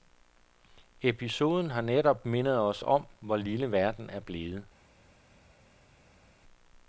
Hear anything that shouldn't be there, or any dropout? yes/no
no